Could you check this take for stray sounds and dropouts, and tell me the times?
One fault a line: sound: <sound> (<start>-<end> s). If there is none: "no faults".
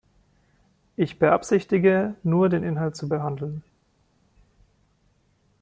no faults